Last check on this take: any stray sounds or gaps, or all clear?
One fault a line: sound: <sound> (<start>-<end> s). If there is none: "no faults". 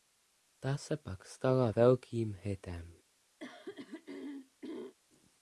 sound: throat clearing (3.4-5.0 s)